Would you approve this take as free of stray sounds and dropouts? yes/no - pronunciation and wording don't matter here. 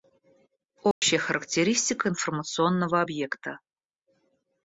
no